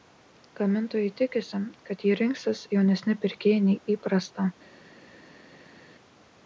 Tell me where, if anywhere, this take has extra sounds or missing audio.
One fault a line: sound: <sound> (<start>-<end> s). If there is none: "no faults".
no faults